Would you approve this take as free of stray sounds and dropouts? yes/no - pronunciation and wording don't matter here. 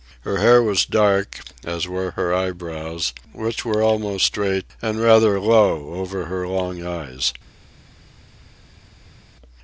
yes